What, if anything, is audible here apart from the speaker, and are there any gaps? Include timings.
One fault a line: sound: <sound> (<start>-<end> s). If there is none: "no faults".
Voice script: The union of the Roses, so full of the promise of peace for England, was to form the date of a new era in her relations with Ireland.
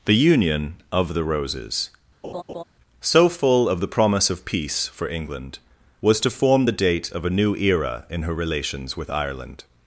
sound: laugh (2.2-2.6 s)